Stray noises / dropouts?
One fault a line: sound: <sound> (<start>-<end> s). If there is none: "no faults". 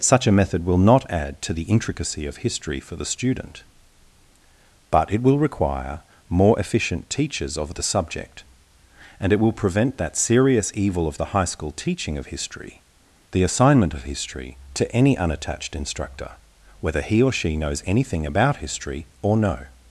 no faults